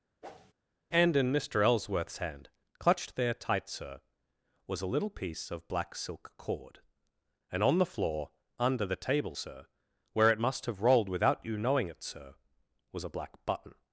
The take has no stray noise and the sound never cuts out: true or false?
false